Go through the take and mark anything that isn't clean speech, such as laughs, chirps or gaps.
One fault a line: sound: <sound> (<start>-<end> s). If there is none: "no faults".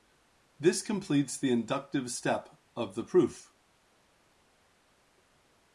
no faults